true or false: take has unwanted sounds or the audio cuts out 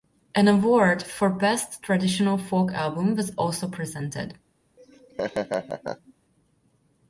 true